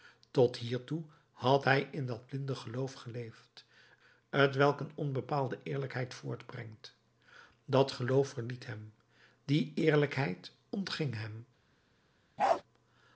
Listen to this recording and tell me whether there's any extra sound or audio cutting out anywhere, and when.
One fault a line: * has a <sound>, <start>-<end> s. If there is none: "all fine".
* has a bark, 12.4-12.6 s